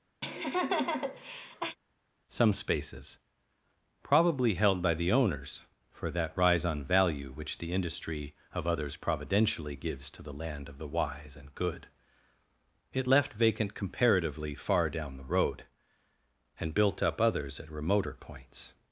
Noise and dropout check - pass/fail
fail